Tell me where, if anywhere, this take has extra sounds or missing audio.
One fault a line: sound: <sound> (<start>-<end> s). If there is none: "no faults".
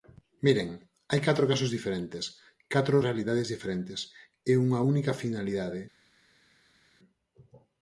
no faults